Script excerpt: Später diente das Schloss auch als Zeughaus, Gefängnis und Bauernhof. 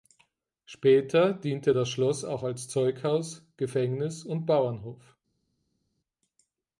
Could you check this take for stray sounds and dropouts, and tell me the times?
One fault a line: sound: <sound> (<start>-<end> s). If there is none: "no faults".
no faults